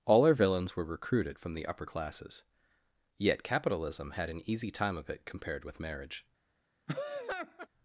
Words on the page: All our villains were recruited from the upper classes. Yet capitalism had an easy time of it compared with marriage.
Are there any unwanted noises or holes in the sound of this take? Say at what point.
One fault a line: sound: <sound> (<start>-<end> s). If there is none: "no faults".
sound: laugh (6.9-7.7 s)